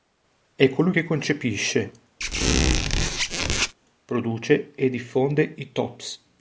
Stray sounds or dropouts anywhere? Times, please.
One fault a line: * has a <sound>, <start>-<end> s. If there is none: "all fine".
* has a squeak, 2.2-3.7 s